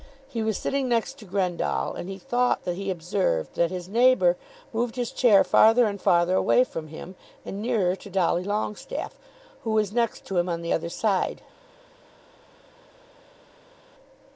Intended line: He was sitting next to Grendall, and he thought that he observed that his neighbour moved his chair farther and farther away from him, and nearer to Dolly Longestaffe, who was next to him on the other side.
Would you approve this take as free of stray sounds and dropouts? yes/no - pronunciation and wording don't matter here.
yes